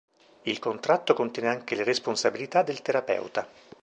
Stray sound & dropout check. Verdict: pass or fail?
pass